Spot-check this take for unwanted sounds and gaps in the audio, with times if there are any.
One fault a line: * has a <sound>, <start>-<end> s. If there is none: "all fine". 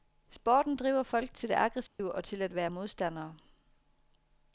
* has a dropout, 1.9-2.0 s